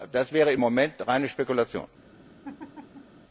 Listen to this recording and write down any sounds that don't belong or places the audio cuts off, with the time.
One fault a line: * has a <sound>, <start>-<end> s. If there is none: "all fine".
* has a laugh, 2.4-3.2 s